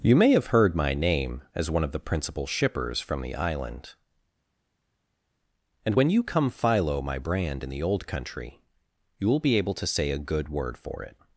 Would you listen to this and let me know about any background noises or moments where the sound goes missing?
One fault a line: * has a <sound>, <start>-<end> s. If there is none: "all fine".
all fine